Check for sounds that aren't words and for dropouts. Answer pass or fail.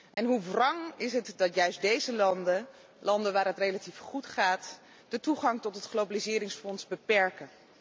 fail